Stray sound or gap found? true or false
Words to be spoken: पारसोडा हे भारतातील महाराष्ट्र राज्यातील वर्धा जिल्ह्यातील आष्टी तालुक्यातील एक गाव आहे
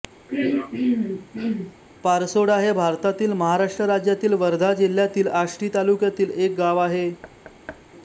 true